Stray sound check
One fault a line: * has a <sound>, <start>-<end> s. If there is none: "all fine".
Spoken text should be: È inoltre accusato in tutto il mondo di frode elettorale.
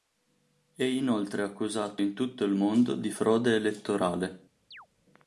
* has a chirp, 4.7-4.9 s